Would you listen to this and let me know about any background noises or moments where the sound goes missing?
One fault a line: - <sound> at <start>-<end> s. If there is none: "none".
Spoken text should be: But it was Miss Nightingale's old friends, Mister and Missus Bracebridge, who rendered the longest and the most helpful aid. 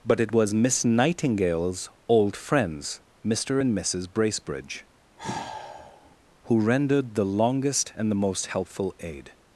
- sigh at 5.2-6.2 s